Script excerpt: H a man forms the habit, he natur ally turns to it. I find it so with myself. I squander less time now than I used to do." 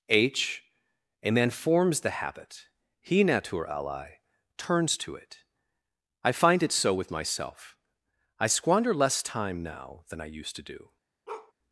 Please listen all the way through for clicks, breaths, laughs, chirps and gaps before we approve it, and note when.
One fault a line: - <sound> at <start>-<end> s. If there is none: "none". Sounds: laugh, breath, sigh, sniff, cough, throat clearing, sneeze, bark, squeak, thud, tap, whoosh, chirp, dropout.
- bark at 11.3-11.5 s